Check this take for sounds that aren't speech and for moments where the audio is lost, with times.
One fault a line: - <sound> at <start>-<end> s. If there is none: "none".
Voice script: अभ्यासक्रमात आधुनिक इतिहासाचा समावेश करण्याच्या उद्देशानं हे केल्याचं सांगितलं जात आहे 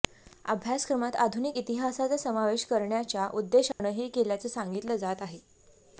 - dropout at 3.7-3.8 s